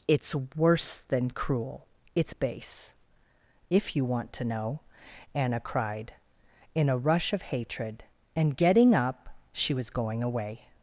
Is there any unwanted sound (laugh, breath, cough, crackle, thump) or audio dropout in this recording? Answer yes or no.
no